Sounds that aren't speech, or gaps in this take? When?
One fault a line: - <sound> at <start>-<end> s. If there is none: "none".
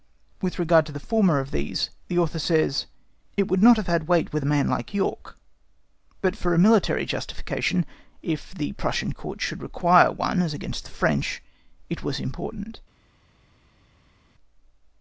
none